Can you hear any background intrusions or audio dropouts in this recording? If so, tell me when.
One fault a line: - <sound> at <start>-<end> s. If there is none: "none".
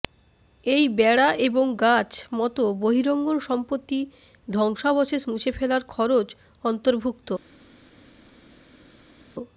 none